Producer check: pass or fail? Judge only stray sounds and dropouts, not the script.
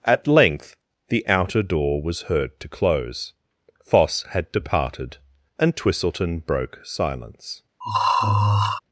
fail